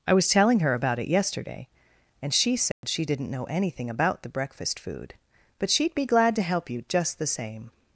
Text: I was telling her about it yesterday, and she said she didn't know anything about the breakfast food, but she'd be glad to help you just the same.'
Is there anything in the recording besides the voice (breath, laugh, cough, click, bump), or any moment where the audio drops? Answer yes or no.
yes